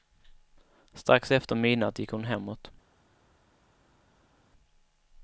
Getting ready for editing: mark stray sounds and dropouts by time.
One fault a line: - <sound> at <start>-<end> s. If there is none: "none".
none